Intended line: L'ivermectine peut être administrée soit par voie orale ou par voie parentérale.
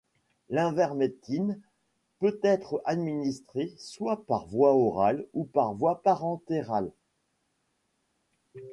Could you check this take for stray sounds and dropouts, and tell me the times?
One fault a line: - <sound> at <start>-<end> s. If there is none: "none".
none